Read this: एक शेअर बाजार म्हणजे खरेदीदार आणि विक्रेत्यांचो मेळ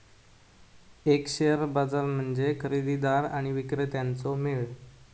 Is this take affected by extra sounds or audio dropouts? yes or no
no